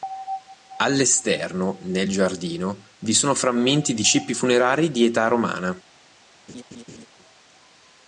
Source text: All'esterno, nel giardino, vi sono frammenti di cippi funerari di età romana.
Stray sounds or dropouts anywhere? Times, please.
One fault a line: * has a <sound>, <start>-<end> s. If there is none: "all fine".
* has a laugh, 6.5-7.1 s